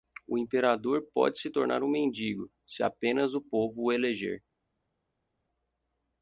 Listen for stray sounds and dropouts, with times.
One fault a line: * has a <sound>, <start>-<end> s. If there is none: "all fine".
all fine